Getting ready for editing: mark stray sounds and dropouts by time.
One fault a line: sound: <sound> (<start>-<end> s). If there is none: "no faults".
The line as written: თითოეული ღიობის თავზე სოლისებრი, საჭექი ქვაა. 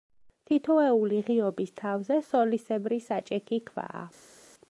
no faults